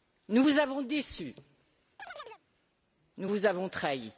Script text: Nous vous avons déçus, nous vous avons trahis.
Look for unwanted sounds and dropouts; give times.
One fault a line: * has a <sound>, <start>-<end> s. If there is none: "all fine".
* has a chirp, 2.0-2.4 s